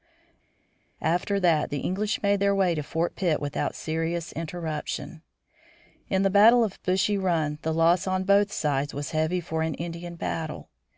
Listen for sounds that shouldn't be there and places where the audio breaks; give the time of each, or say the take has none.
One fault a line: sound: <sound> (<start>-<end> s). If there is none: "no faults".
no faults